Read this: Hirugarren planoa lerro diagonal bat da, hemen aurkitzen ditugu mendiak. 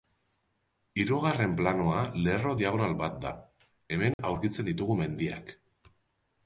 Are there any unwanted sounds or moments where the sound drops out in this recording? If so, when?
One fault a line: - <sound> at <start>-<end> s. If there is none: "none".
- dropout at 4.1-4.2 s